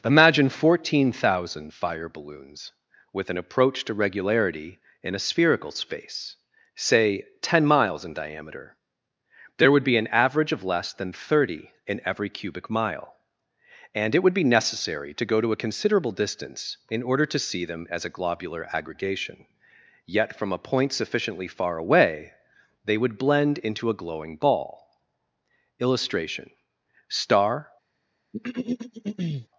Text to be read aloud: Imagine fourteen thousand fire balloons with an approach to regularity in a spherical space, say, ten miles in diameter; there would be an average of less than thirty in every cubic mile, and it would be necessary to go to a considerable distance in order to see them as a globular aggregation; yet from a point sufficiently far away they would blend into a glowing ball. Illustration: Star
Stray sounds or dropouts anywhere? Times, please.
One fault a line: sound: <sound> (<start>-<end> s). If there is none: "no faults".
sound: throat clearing (28.3-29.5 s)